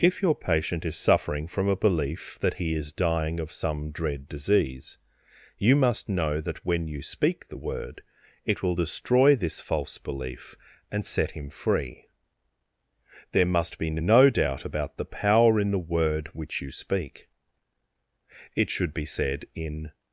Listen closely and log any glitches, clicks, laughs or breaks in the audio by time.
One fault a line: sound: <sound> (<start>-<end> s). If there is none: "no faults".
no faults